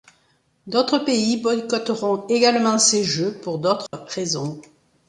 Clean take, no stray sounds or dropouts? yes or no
no